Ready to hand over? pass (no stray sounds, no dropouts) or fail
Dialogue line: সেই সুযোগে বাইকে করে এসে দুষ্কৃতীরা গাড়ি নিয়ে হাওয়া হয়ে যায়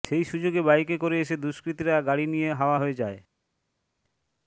pass